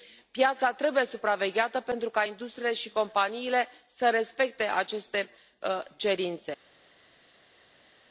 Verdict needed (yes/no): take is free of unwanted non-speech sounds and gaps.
yes